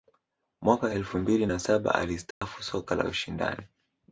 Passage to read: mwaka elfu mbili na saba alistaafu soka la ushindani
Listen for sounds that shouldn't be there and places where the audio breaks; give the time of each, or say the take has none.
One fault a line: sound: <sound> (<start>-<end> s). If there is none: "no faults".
sound: dropout (2.3-2.4 s)